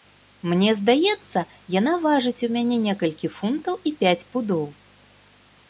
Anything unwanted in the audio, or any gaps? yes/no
no